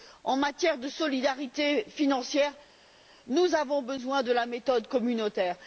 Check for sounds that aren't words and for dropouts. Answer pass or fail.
pass